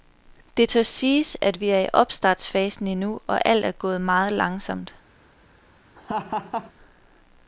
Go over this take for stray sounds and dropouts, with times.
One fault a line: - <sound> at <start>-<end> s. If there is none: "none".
- laugh at 6.0-6.7 s